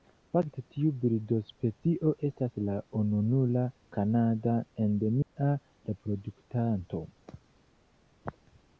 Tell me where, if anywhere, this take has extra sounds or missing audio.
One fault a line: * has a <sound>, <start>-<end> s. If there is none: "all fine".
* has a dropout, 5.2-5.4 s